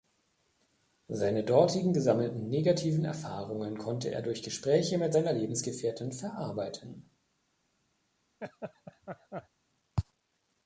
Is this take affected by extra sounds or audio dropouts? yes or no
yes